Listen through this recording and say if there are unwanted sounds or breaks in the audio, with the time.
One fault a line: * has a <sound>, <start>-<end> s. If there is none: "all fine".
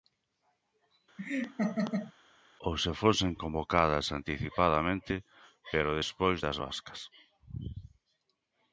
* has a laugh, 1.2-2.1 s